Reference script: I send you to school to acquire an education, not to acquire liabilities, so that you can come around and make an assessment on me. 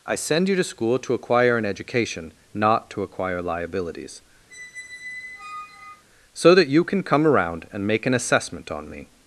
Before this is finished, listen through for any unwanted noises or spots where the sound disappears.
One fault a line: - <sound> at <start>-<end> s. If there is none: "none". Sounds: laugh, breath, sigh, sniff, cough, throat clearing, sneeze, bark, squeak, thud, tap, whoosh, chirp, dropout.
- squeak at 4.5-6.0 s